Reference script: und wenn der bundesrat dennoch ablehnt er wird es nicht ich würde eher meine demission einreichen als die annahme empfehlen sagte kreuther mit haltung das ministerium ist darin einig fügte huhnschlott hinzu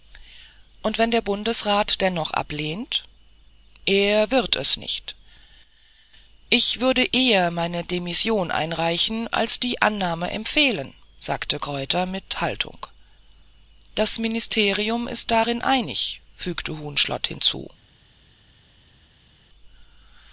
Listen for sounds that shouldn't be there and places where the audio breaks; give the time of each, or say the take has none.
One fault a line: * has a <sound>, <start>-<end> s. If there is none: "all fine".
all fine